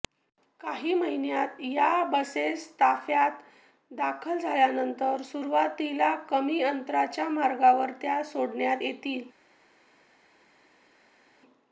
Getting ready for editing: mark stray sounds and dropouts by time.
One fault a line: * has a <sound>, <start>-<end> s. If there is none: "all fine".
all fine